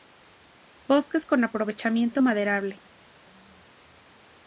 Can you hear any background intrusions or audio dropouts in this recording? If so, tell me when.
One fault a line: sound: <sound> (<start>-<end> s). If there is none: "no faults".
no faults